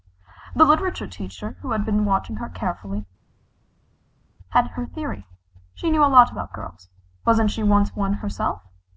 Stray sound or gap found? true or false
false